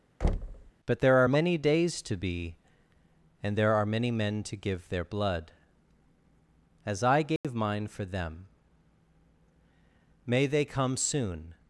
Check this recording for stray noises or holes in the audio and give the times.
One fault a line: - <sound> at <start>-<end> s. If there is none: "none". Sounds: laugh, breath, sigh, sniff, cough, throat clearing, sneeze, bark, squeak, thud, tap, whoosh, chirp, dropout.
- thud at 0.2-0.7 s
- dropout at 7.4-7.4 s